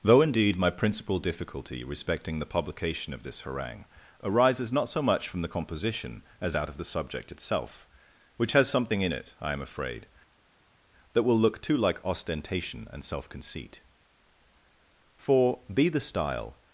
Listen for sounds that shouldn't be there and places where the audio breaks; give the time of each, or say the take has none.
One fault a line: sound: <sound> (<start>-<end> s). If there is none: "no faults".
no faults